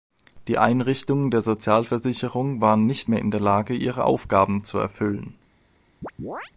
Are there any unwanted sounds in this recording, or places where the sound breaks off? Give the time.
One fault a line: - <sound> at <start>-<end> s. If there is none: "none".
- chirp at 6.0-6.5 s